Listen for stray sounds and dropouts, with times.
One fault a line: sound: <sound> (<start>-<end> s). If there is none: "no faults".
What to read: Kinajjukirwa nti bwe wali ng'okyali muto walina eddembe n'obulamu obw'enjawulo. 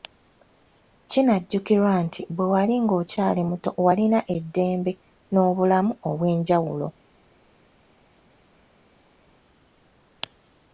no faults